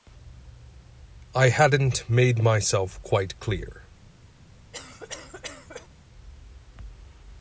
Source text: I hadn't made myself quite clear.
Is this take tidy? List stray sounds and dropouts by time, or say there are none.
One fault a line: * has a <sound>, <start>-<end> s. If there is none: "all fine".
* has a cough, 4.7-5.9 s